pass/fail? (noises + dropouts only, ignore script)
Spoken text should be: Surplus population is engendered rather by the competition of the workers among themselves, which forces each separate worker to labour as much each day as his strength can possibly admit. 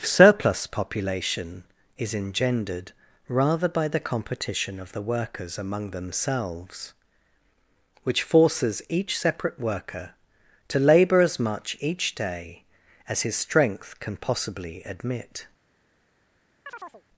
fail